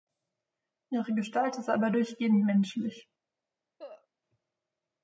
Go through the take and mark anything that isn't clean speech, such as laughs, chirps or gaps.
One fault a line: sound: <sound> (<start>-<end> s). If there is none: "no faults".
sound: cough (3.8-4.1 s)